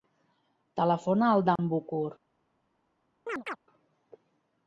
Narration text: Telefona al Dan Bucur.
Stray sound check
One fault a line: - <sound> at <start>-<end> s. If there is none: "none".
- dropout at 1.6-1.6 s
- chirp at 3.3-3.6 s